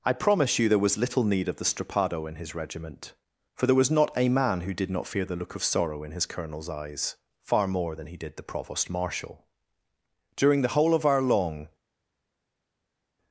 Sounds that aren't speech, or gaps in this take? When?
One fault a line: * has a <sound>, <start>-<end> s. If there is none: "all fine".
all fine